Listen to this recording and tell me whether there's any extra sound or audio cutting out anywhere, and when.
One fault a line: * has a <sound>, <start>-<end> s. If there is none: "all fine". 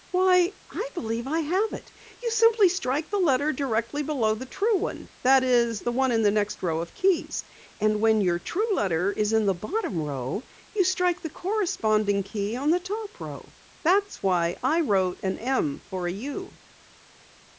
all fine